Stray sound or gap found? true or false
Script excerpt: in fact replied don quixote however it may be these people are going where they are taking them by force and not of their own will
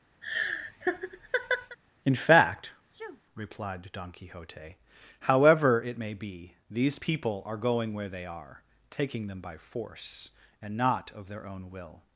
true